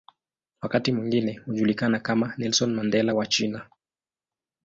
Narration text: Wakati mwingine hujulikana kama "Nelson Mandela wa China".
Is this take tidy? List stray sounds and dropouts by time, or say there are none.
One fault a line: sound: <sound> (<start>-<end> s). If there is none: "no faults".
no faults